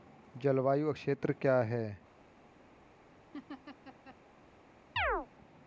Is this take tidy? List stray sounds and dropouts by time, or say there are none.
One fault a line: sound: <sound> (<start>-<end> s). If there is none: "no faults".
sound: laugh (3.3-4.2 s)
sound: chirp (5.0-5.3 s)